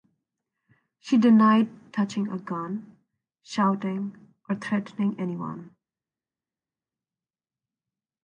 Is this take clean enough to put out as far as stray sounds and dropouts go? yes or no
yes